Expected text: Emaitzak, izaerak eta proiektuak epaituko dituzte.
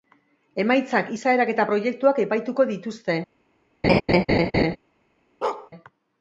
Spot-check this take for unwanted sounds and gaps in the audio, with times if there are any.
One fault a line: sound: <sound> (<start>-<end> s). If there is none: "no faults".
sound: laugh (3.8-4.8 s)
sound: bark (5.4-5.7 s)